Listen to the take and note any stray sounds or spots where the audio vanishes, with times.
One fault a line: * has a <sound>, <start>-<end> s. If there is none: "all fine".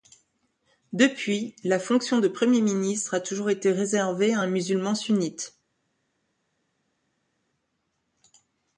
all fine